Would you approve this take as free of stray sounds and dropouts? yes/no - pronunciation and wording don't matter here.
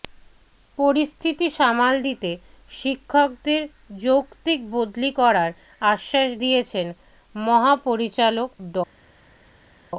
yes